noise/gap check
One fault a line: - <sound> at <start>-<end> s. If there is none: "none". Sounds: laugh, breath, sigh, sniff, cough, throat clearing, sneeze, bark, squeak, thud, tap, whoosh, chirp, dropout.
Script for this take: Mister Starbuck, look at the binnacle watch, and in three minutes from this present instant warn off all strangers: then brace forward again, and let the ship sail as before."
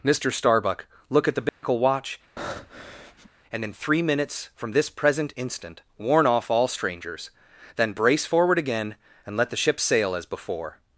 - dropout at 1.5-1.6 s
- breath at 2.4-3.3 s